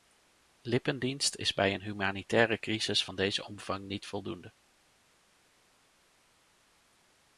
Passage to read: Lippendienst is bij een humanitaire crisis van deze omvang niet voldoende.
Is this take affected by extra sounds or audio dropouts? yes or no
no